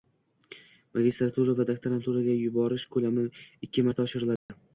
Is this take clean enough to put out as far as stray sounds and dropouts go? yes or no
no